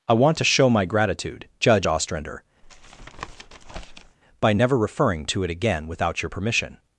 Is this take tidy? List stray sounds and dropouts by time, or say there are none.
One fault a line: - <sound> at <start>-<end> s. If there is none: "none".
- tap at 2.6-4.2 s